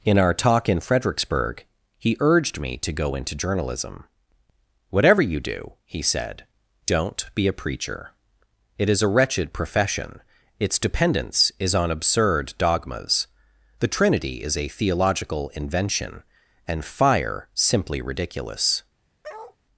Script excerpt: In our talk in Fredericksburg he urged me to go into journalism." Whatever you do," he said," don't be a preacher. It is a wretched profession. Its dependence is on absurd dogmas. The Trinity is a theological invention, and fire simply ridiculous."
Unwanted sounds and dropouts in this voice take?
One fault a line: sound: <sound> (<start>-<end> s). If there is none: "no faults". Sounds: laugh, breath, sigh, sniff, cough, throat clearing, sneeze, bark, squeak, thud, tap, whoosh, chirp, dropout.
sound: bark (19.2-19.6 s)